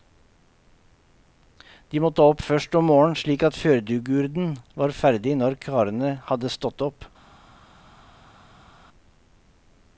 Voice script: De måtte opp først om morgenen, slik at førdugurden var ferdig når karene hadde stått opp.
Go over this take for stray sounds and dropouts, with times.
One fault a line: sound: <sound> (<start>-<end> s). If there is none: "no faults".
no faults